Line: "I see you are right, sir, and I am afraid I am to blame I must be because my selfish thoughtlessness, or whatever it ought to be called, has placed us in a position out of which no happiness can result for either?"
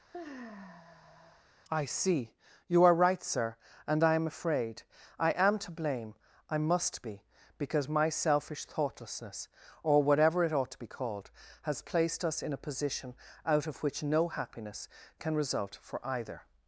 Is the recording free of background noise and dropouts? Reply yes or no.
no